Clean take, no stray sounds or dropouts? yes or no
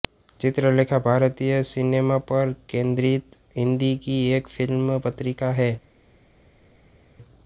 yes